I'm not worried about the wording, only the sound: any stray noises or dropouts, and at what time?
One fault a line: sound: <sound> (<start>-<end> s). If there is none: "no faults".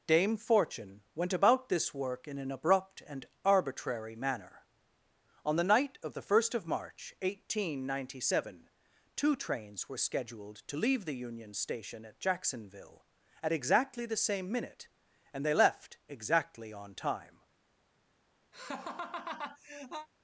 sound: laugh (18.5-20.1 s)